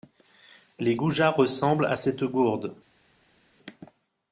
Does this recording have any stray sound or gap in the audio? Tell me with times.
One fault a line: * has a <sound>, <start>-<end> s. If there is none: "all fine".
all fine